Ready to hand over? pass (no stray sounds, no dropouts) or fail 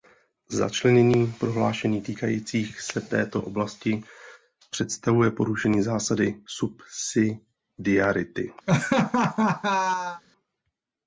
fail